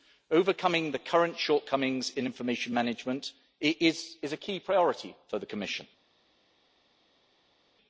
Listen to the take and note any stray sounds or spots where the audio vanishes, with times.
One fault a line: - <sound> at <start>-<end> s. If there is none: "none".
none